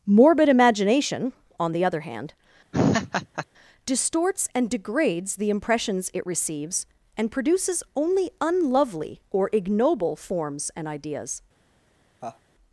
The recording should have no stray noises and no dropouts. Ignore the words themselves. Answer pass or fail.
fail